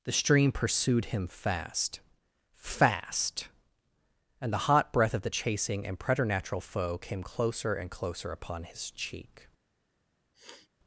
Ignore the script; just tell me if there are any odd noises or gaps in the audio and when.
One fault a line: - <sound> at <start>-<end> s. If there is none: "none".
- sniff at 10.3-10.7 s